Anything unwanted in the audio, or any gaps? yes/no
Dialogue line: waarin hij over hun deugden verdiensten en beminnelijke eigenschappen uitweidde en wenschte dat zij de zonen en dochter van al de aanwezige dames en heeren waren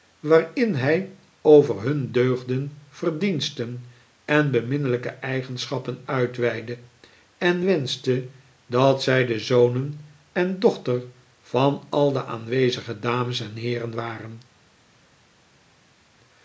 no